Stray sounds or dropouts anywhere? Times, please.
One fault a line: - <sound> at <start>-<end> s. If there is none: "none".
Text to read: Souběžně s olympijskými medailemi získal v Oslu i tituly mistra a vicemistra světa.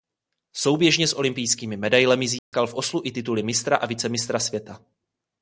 - dropout at 2.4-2.5 s